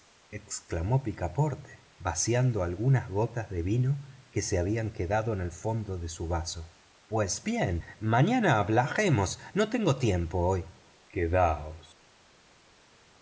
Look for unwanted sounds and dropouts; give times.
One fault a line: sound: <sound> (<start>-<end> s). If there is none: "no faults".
no faults